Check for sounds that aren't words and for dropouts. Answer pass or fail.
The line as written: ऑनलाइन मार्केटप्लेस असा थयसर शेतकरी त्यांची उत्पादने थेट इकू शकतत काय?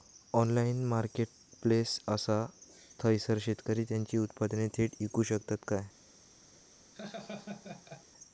fail